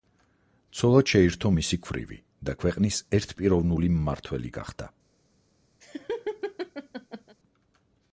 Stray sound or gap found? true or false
true